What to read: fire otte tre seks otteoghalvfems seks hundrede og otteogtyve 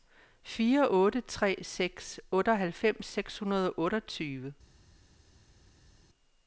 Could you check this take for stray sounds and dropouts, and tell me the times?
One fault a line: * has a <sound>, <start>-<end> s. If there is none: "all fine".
all fine